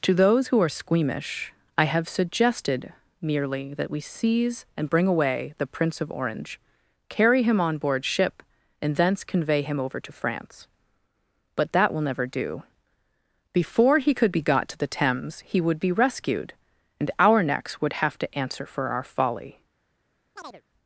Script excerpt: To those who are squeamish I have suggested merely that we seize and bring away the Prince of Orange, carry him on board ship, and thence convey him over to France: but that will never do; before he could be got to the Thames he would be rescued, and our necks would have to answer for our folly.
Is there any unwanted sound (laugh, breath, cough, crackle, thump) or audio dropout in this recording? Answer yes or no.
yes